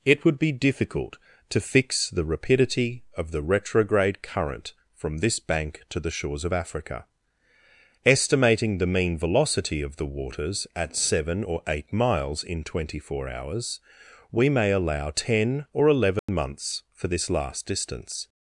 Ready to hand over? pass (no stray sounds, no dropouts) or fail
fail